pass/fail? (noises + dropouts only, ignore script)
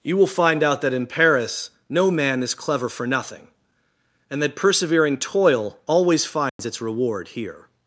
fail